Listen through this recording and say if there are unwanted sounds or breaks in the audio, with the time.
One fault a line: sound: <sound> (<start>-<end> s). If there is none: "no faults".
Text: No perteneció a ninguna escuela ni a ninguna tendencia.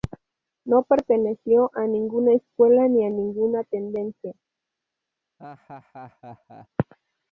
sound: laugh (5.4-6.7 s)